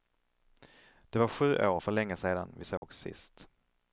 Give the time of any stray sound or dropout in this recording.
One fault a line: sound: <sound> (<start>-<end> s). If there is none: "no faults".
sound: dropout (2.8-2.8 s)